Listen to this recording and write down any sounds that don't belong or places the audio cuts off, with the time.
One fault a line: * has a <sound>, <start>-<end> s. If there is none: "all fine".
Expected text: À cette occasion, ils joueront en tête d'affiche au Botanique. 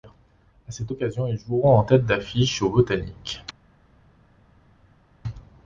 all fine